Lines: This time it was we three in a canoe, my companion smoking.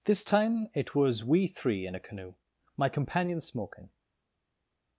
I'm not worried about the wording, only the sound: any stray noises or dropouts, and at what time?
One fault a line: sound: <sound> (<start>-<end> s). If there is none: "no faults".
no faults